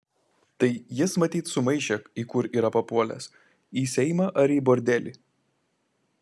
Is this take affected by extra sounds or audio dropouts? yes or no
no